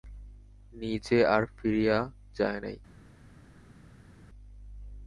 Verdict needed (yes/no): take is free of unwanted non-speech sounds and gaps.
yes